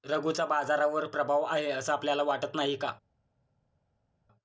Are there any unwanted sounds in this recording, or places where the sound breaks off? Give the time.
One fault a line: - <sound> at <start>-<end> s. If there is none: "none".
none